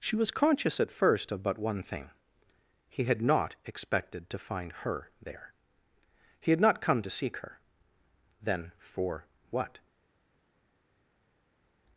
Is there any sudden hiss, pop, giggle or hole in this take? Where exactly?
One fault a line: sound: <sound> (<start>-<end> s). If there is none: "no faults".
no faults